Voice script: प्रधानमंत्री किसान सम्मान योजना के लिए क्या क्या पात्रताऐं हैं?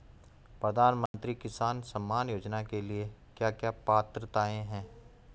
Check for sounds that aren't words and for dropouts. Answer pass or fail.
fail